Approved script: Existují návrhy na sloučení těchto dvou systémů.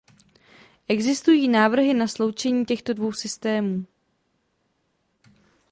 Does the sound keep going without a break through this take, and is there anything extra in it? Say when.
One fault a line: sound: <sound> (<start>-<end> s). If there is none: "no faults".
no faults